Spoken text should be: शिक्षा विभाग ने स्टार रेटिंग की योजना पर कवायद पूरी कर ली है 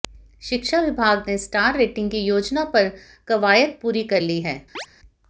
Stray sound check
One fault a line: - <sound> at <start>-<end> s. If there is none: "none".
- chirp at 4.7-4.9 s